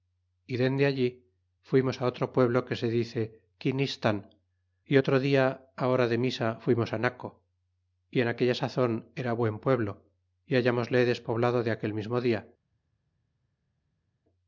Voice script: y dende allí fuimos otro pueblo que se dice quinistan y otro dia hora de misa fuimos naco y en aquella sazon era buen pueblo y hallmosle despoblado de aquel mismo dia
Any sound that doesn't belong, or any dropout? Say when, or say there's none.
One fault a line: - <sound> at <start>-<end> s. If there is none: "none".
none